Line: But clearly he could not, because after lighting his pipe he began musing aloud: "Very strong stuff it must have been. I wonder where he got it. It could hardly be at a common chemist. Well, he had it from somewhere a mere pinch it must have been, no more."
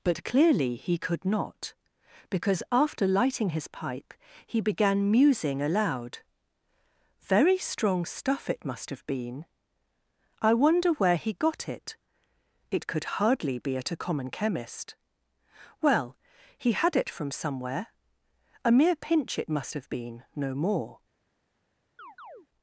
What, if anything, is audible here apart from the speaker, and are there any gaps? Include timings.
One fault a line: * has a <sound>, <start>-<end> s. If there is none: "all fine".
* has a chirp, 22.0-22.5 s